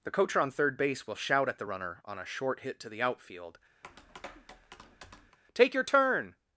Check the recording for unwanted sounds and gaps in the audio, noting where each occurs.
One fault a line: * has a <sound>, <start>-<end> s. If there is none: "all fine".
* has a tap, 3.8-5.4 s